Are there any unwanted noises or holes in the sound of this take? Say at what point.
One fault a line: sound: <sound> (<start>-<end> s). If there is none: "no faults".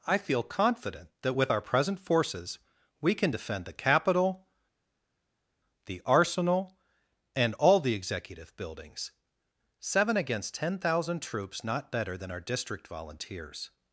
no faults